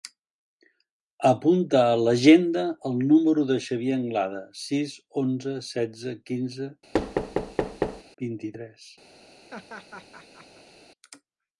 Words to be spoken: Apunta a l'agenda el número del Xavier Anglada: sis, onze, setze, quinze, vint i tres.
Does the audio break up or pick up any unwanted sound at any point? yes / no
yes